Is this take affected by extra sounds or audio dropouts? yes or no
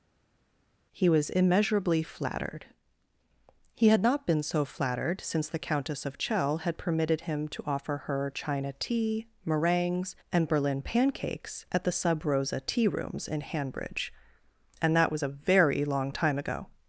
no